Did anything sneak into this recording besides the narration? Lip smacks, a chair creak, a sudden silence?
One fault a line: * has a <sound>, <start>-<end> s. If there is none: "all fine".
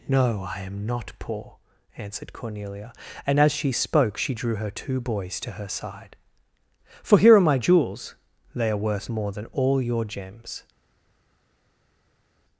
all fine